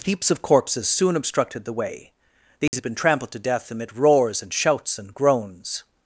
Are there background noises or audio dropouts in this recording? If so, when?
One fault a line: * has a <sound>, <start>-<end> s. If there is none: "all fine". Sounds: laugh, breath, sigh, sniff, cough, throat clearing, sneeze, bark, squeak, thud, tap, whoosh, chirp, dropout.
* has a dropout, 2.7-2.7 s